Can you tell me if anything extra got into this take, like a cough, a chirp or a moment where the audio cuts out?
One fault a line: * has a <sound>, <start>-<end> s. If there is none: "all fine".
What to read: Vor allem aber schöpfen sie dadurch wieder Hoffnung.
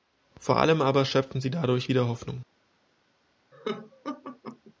* has a laugh, 3.5-4.7 s